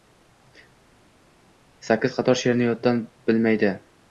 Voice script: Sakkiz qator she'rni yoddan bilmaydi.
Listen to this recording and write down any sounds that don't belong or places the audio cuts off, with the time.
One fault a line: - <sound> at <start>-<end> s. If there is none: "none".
none